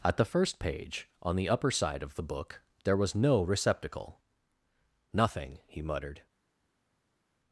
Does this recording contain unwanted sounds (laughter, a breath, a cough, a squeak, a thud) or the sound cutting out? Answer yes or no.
no